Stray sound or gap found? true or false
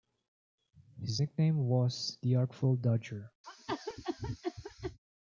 true